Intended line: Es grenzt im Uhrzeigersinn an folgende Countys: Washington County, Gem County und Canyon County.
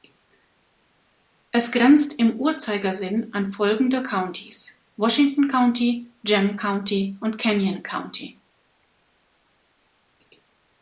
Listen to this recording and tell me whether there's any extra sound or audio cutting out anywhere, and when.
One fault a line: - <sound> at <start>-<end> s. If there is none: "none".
none